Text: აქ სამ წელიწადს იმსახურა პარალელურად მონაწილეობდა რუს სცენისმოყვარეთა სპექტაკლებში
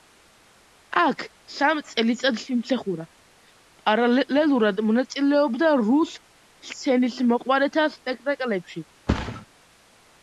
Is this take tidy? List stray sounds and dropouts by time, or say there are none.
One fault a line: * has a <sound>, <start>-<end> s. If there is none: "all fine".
* has a thud, 9.1-9.5 s